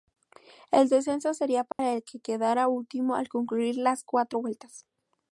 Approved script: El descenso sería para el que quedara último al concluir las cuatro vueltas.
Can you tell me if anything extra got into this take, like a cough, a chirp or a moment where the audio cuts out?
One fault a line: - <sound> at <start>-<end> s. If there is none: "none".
- dropout at 1.7-1.8 s